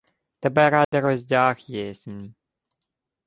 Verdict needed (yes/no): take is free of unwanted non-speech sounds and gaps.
no